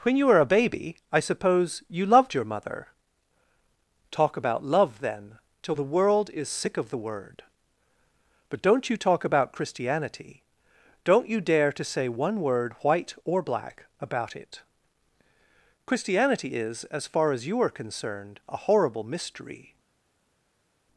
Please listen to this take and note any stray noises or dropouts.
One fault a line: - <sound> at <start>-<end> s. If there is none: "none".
none